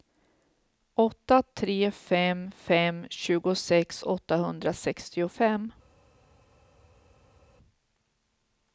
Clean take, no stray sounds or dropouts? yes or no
yes